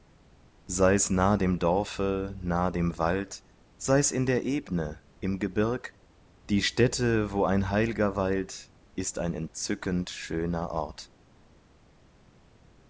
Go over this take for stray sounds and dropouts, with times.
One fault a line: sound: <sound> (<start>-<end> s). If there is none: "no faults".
no faults